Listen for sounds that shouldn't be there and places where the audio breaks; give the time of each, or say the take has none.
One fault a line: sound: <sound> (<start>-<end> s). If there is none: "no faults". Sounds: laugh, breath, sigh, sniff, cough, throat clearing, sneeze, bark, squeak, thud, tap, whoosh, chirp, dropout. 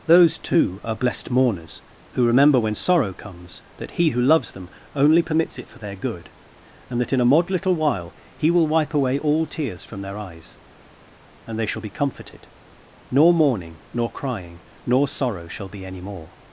no faults